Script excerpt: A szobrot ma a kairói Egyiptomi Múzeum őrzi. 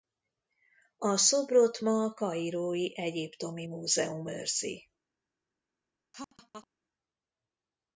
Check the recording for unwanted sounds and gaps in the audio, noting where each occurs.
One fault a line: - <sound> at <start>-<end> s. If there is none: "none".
- laugh at 6.1-6.7 s